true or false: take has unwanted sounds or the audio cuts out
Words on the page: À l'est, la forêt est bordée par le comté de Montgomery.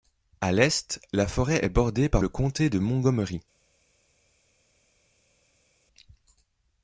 false